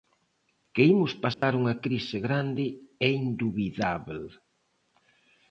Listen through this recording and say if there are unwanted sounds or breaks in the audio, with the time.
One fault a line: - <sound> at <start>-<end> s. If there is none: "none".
- dropout at 1.3-1.4 s